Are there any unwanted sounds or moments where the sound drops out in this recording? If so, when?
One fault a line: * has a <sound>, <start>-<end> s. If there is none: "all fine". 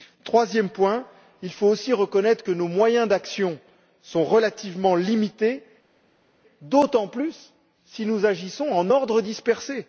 all fine